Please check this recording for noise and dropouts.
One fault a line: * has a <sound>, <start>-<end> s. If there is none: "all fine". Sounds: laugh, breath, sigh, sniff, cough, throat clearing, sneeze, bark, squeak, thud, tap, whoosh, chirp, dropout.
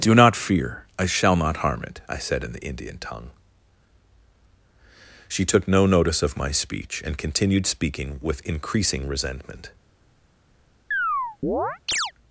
* has a chirp, 10.9-12.1 s